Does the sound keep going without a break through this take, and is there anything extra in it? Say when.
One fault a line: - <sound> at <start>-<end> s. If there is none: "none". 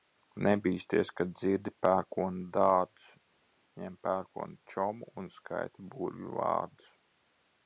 none